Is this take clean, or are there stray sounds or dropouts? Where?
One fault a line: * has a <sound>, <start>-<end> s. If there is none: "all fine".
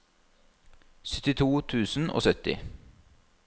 all fine